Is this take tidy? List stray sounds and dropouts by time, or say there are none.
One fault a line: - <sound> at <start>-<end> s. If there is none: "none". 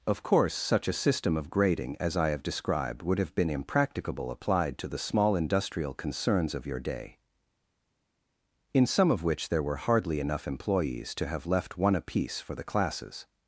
none